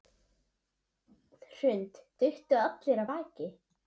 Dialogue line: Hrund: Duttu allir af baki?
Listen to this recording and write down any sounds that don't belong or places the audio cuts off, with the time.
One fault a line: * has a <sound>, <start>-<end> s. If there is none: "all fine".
all fine